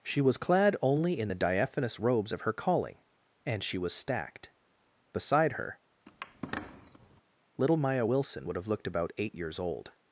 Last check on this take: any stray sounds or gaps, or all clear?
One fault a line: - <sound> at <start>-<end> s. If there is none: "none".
- squeak at 6.1-7.2 s